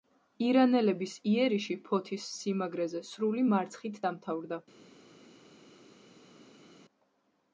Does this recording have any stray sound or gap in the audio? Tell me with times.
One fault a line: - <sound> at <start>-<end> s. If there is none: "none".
none